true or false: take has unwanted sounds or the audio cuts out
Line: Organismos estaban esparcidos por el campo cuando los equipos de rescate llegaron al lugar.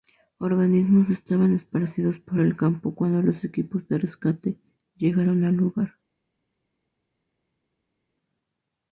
false